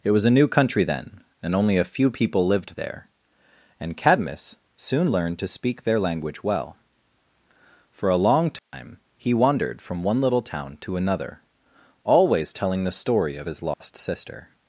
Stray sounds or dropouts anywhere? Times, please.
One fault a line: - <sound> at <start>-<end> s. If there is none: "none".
- dropout at 8.6-8.7 s
- dropout at 13.7-13.8 s